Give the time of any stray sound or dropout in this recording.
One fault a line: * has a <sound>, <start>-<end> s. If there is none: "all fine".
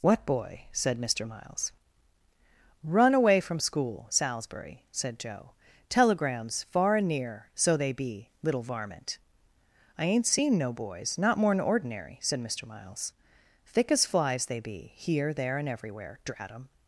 all fine